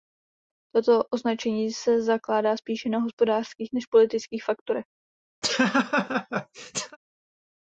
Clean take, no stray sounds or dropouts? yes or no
no